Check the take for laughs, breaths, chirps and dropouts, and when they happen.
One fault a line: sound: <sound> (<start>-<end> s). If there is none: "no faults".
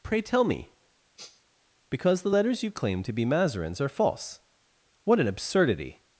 sound: sniff (1.2-1.4 s)